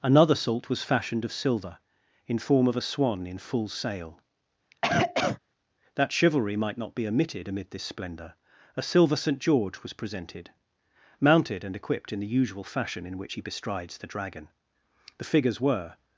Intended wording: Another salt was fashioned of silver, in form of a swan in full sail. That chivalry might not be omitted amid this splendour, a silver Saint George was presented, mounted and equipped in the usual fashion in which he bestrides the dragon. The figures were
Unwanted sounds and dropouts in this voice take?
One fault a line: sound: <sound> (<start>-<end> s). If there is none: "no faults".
sound: cough (4.7-5.4 s)